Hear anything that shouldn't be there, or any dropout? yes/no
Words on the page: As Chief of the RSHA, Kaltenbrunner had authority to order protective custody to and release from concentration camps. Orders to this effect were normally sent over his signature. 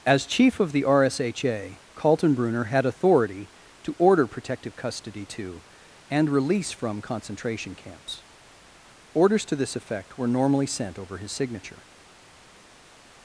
no